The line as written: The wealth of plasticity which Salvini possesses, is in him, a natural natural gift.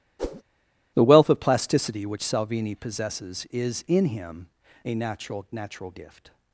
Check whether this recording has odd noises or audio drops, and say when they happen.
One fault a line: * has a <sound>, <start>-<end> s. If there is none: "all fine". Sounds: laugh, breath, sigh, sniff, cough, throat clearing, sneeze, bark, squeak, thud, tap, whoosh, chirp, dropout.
* has a whoosh, 0.2-0.4 s